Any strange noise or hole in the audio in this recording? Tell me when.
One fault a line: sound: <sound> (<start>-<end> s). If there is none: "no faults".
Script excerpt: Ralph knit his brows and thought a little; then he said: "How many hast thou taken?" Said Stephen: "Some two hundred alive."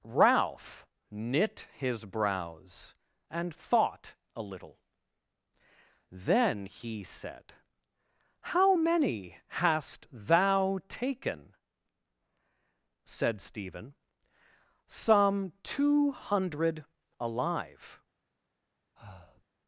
sound: breath (19.0-19.5 s)